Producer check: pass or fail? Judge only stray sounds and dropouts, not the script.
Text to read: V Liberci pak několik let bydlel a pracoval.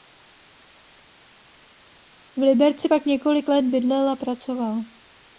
pass